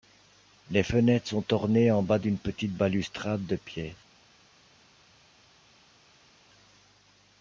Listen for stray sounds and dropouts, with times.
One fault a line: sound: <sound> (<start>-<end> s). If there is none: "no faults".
no faults